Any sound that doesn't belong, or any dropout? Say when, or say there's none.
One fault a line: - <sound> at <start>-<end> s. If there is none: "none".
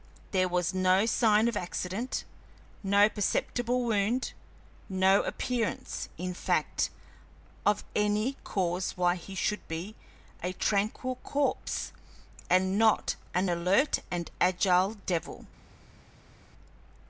none